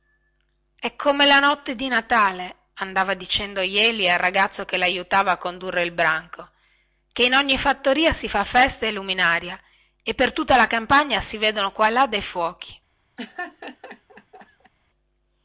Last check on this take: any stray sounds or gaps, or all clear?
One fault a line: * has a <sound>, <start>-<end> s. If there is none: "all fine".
* has a laugh, 13.2-14.7 s